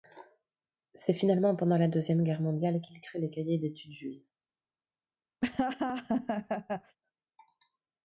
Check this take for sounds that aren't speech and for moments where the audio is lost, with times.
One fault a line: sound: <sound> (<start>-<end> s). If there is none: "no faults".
sound: laugh (5.4-7.0 s)